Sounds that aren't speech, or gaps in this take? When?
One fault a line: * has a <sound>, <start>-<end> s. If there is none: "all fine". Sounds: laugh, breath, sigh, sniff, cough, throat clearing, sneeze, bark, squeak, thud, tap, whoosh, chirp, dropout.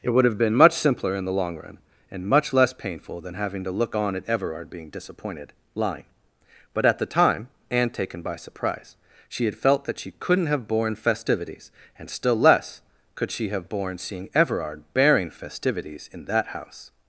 all fine